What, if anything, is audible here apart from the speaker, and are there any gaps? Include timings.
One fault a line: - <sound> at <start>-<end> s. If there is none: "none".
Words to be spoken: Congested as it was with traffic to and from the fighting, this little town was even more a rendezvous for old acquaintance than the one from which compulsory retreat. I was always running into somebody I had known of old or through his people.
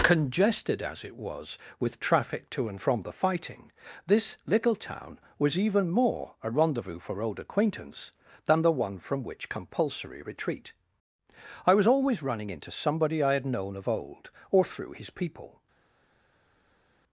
none